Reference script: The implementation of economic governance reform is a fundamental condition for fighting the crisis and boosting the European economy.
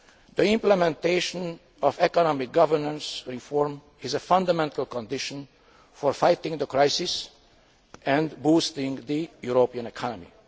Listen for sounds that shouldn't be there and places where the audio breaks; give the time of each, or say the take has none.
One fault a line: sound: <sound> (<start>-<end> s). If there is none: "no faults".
no faults